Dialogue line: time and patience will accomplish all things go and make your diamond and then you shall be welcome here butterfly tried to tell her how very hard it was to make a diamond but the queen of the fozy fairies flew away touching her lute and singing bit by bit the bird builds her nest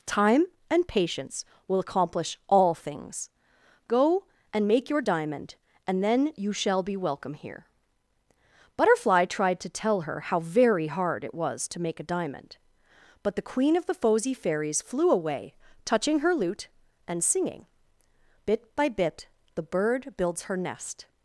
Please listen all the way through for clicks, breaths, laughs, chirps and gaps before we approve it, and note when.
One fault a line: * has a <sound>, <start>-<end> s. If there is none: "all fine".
all fine